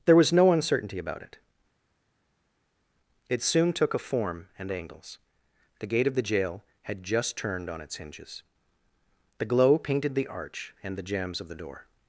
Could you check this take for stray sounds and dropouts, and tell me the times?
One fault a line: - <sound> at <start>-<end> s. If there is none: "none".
none